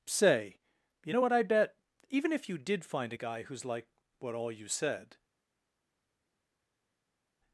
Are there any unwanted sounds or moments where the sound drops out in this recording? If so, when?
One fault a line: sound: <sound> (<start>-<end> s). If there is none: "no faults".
no faults